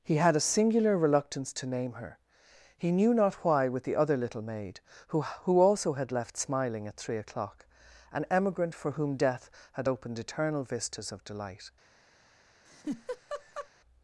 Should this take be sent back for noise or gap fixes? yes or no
yes